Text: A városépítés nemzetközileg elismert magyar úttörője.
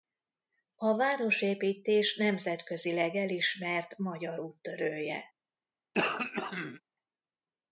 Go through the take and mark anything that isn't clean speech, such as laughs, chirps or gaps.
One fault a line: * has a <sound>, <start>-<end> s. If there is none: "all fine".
* has a throat clearing, 5.9-6.8 s